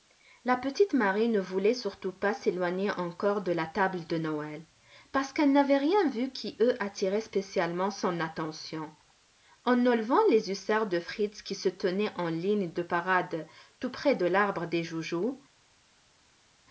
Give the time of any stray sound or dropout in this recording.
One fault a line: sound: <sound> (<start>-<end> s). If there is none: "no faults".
no faults